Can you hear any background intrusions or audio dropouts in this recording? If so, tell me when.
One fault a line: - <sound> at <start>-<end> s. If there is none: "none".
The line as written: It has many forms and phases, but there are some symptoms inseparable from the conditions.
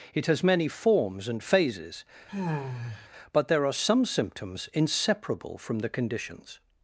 - sigh at 2.3-3.1 s